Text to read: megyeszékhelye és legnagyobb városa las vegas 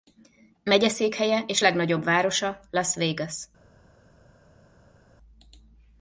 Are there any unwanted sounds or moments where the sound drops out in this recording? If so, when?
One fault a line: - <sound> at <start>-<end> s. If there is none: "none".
none